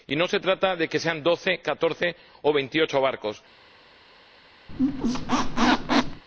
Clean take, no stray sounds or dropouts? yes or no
no